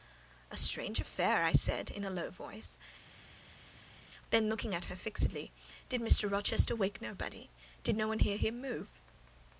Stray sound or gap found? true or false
false